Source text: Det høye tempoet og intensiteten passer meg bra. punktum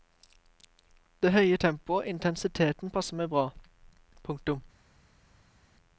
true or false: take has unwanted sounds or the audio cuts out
false